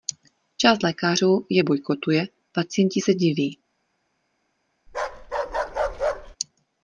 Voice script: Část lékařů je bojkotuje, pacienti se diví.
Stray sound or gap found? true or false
true